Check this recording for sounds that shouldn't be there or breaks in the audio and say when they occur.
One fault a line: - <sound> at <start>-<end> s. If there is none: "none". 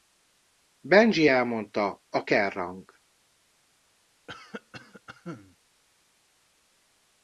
- cough at 4.3-5.6 s